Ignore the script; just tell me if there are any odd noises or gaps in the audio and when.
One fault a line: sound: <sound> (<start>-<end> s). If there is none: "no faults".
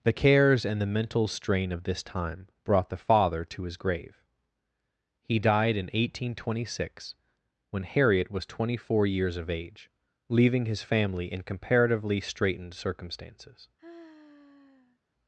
sound: sigh (13.8-15.0 s)